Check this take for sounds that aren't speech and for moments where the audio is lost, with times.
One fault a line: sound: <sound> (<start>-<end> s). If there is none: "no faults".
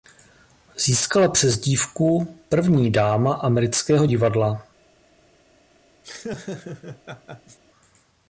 sound: laugh (6.0-7.6 s)